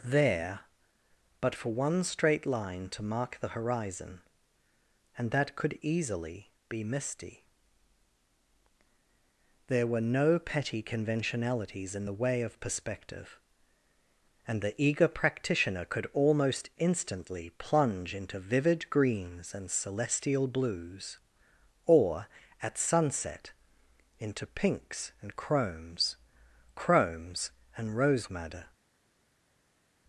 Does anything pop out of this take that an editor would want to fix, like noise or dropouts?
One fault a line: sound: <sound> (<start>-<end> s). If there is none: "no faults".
no faults